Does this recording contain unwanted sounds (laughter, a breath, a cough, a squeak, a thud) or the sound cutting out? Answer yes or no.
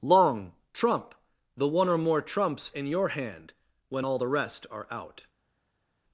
no